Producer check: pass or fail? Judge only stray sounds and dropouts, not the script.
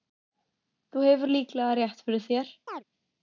fail